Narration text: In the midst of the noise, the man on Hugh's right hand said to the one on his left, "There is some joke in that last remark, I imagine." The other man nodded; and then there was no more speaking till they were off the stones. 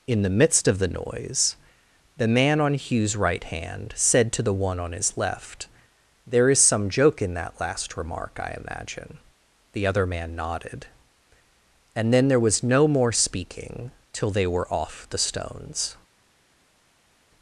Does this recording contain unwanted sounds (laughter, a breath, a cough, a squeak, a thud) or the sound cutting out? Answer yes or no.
no